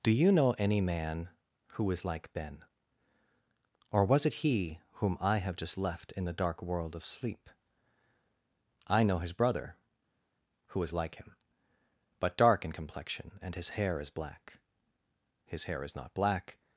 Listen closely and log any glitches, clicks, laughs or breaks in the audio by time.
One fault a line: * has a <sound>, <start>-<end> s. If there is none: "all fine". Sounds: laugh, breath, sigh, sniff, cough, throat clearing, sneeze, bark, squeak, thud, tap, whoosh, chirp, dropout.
all fine